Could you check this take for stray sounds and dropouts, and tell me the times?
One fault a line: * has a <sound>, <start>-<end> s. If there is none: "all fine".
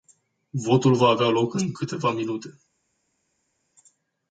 all fine